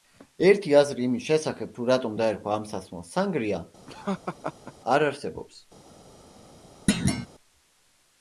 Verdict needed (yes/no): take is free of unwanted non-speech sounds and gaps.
no